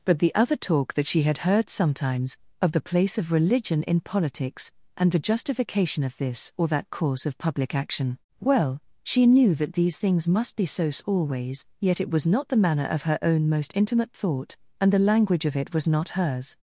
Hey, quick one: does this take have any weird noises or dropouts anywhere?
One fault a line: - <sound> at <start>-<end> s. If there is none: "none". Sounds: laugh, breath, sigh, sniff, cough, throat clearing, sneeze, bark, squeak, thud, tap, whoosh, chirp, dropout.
none